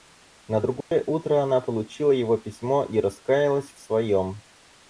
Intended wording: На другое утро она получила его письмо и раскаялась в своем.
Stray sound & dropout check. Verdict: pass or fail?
fail